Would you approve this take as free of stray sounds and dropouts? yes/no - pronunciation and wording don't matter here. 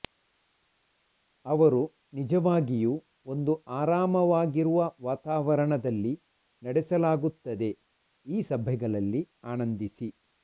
yes